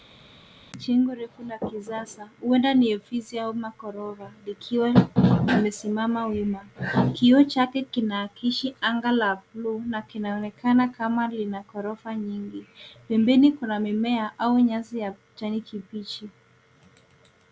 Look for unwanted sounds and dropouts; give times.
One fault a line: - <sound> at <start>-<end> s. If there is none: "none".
none